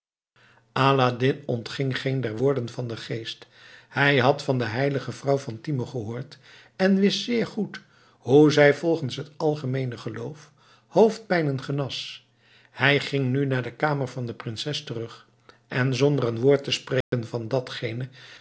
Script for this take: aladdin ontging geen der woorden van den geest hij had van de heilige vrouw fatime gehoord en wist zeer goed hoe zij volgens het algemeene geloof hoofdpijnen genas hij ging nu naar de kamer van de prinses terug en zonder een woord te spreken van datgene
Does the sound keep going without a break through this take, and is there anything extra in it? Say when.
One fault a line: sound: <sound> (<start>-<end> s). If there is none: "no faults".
sound: dropout (17.0-17.1 s)